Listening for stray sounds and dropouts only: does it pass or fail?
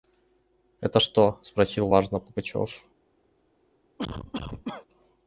fail